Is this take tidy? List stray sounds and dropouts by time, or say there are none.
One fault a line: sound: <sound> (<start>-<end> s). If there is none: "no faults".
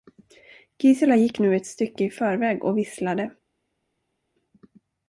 no faults